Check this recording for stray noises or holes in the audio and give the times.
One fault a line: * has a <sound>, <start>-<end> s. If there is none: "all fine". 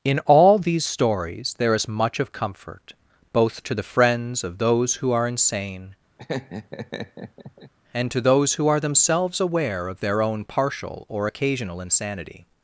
* has a laugh, 6.2-7.7 s